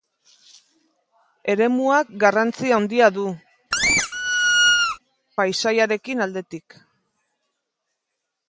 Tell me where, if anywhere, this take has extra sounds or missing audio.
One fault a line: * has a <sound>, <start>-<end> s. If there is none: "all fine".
* has a squeak, 3.7-5.0 s